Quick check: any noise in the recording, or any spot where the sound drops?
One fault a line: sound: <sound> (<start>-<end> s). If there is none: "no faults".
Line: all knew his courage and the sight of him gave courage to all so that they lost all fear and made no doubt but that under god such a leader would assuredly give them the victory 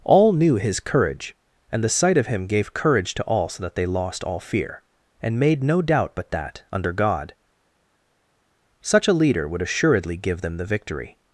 no faults